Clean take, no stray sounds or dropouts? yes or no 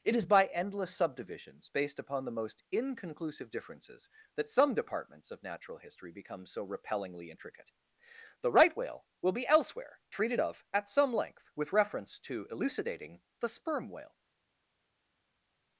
yes